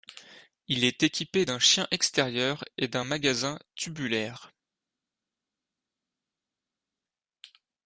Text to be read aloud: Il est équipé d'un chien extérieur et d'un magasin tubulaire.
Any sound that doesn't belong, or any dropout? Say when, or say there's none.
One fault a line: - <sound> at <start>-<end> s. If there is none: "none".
none